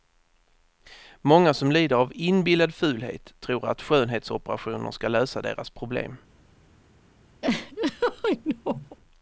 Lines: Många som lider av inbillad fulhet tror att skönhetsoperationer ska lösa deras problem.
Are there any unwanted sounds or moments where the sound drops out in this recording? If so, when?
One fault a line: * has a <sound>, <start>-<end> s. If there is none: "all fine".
* has a laugh, 7.4-9.0 s